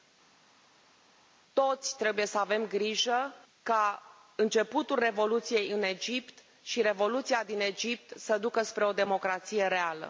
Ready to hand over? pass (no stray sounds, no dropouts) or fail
pass